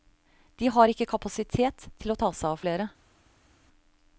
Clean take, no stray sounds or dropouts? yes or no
yes